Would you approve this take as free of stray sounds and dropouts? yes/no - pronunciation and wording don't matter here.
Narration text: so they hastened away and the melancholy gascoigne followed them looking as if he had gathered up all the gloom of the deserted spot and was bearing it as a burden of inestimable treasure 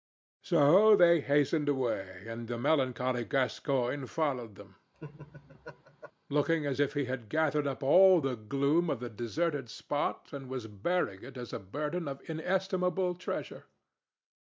no